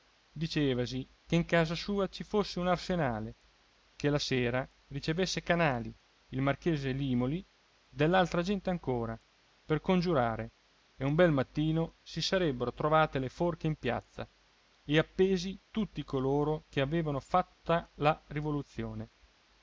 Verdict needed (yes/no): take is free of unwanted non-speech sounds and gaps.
yes